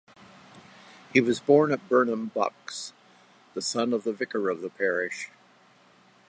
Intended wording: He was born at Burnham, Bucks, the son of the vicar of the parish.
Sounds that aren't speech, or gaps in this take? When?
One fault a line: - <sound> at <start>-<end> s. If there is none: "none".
none